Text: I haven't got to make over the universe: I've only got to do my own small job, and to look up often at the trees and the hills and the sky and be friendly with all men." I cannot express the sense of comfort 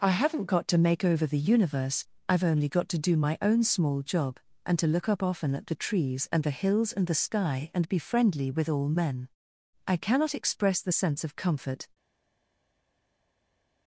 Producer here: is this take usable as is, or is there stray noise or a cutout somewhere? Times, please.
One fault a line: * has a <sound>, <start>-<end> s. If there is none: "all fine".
all fine